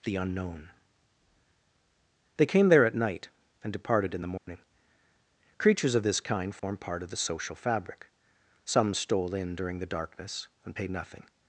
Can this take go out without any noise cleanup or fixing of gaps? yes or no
no